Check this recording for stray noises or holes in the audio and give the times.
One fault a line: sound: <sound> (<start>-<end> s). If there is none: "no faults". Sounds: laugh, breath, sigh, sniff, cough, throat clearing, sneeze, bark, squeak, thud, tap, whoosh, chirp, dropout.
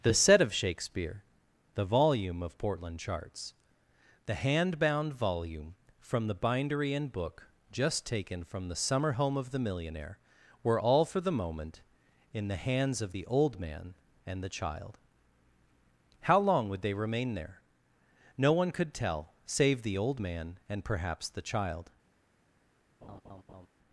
sound: laugh (23.0-23.7 s)